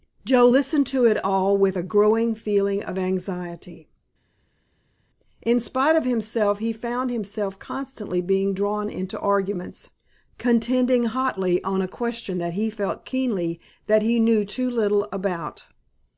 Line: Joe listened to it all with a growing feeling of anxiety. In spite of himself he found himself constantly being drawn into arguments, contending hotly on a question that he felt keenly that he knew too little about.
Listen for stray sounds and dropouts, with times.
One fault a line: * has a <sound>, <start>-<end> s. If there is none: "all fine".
all fine